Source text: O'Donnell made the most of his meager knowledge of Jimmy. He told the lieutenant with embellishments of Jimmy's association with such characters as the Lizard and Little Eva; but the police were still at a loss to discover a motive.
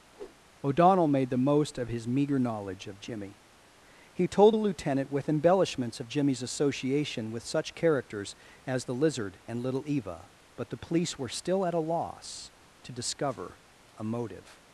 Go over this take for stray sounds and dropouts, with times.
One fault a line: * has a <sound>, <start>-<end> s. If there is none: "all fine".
* has a whoosh, 0.1-0.4 s